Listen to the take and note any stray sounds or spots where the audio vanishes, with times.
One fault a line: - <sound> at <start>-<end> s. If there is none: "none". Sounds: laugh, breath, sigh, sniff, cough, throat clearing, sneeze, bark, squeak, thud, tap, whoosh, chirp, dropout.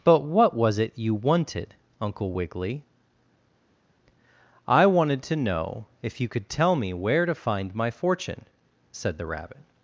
none